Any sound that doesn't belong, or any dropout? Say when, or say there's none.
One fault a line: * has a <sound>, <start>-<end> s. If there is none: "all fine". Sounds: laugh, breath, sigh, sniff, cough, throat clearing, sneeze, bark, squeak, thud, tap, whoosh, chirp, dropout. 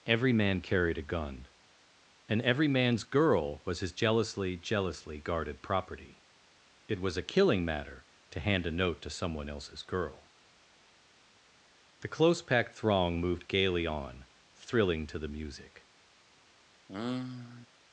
* has a sigh, 16.9-17.7 s